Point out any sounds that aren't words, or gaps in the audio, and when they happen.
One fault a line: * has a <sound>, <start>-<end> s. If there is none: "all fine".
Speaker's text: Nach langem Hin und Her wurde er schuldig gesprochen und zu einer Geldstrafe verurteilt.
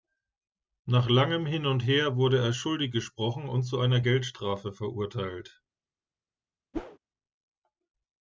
* has a whoosh, 6.7-7.0 s